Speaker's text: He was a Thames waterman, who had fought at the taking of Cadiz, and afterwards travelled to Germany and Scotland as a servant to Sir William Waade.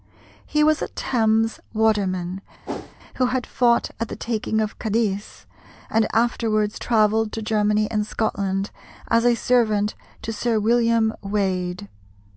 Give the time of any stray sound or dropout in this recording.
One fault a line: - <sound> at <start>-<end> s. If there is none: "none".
- whoosh at 2.7-3.0 s